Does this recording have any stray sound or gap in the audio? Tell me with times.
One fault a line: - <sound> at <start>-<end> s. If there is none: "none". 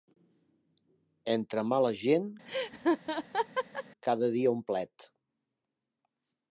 - laugh at 2.5-3.8 s